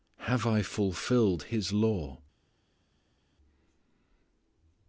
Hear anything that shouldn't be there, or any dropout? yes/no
no